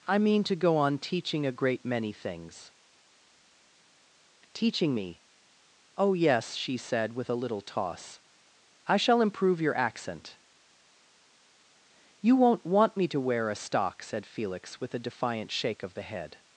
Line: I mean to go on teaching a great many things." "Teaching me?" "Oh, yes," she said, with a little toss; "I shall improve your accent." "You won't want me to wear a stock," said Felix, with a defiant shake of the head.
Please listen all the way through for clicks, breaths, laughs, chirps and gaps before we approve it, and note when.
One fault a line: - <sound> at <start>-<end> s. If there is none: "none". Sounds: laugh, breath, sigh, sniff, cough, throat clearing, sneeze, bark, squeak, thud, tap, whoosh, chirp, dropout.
none